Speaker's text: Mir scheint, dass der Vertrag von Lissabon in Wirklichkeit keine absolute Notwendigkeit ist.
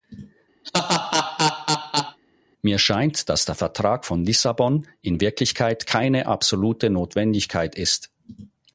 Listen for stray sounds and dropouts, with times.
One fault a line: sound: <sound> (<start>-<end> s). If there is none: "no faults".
sound: laugh (0.6-2.2 s)